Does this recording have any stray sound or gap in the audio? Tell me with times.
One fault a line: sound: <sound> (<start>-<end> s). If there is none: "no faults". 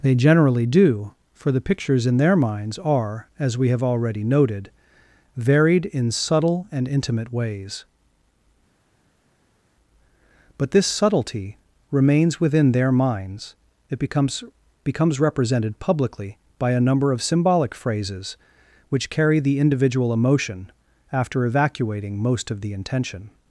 no faults